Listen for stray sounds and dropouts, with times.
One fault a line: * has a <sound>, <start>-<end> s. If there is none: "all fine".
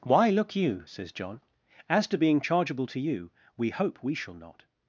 all fine